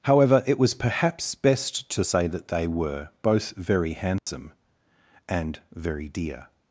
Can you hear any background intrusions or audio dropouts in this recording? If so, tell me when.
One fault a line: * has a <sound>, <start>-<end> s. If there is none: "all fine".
* has a dropout, 4.2-4.3 s